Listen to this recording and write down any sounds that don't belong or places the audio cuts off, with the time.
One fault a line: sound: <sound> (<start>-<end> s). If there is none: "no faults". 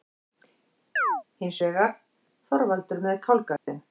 sound: chirp (1.0-1.2 s)
sound: dropout (3.6-3.7 s)